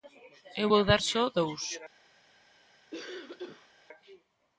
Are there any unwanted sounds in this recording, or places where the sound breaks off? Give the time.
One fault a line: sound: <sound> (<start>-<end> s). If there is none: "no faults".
sound: cough (2.9-3.7 s)